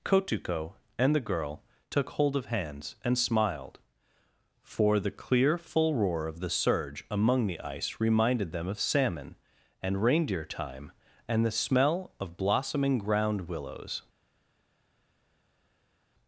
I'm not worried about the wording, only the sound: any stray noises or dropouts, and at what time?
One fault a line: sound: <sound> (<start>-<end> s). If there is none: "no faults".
no faults